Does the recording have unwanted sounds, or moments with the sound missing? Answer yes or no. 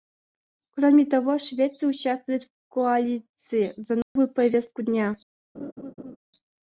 yes